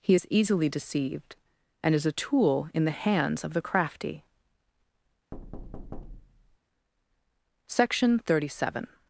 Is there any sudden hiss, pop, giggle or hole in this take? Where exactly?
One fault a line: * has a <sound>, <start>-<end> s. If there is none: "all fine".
* has a thud, 5.3-6.6 s